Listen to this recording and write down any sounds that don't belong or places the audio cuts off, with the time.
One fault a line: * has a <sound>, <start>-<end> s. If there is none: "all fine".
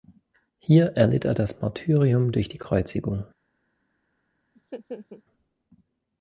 * has a laugh, 4.6-5.2 s